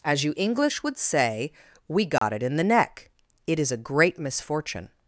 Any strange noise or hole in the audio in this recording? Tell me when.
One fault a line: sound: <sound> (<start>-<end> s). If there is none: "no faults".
sound: dropout (2.2-2.2 s)